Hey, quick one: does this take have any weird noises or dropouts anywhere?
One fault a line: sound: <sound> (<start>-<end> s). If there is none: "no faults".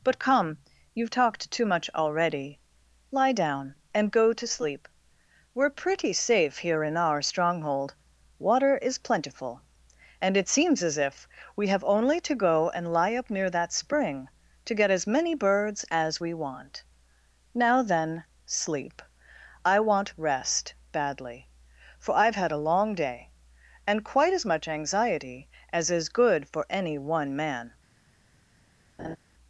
sound: laugh (29.0-29.2 s)